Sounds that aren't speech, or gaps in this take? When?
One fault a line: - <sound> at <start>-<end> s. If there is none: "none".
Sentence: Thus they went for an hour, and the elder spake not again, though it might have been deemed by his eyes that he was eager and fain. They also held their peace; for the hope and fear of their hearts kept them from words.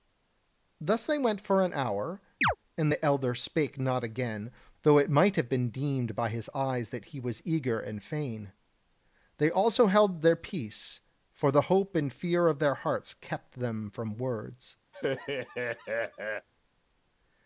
- chirp at 2.4-2.6 s
- laugh at 14.9-16.5 s